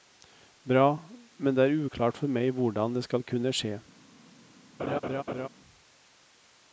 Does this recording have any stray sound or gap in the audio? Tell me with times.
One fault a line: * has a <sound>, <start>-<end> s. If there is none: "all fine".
* has a laugh, 4.8-5.5 s